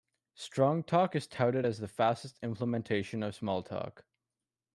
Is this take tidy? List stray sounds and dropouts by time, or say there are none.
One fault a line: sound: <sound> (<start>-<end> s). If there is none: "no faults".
no faults